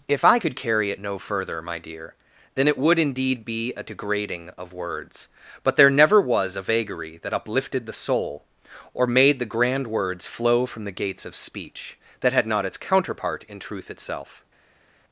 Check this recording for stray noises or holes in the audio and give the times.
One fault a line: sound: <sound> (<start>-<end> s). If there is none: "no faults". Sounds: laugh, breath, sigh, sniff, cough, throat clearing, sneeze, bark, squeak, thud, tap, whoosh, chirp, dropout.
no faults